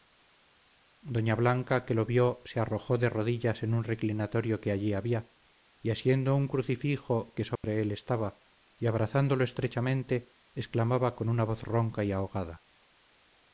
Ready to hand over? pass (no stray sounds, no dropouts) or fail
fail